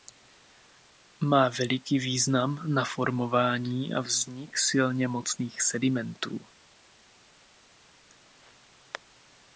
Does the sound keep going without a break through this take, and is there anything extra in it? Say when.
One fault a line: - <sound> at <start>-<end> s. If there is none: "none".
none